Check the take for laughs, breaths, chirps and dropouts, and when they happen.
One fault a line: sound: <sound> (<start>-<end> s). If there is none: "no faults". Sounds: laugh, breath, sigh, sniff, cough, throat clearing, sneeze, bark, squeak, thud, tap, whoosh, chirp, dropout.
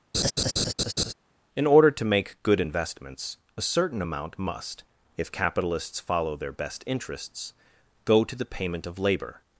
sound: laugh (0.1-1.1 s)